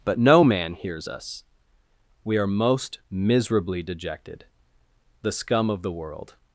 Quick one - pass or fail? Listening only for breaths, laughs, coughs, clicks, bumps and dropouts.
pass